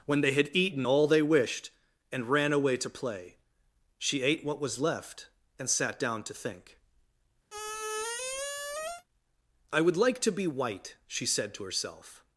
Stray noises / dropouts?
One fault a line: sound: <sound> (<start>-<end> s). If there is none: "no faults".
sound: squeak (7.5-9.0 s)